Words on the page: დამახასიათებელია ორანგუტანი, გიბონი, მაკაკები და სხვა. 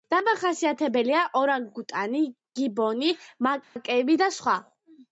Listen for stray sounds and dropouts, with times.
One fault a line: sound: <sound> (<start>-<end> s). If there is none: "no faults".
sound: dropout (3.6-3.8 s)